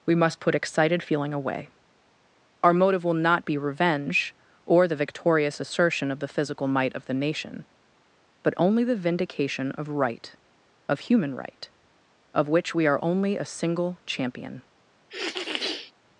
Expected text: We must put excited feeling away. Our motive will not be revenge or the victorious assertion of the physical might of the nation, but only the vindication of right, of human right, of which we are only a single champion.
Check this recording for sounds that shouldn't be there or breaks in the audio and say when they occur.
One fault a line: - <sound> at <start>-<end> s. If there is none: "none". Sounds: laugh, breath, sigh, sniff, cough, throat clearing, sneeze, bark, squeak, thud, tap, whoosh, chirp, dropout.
- sniff at 15.1-15.9 s